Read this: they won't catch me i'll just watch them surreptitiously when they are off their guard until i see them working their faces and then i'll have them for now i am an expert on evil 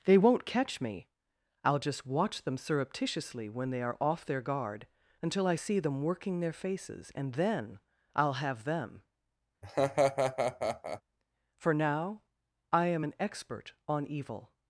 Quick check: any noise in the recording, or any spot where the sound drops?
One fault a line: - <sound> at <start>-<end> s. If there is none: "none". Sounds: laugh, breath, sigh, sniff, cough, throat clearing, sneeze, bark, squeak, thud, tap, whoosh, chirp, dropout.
- laugh at 9.6-11.0 s